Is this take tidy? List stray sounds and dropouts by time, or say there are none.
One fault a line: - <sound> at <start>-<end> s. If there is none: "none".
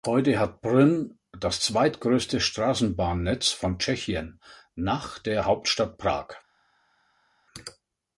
none